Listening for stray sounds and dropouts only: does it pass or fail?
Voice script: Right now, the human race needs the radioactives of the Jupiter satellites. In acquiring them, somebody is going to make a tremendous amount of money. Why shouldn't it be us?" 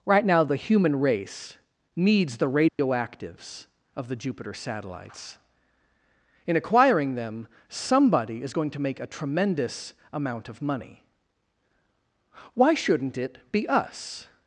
fail